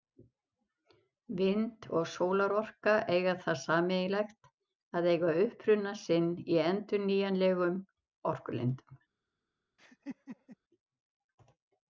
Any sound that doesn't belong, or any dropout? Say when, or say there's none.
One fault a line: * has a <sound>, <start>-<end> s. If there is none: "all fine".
* has a laugh, 9.8-10.6 s